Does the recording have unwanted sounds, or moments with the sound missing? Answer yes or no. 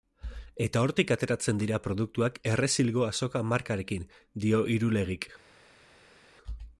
no